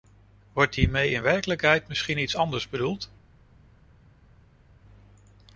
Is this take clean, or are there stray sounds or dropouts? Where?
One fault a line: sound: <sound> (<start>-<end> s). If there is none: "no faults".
no faults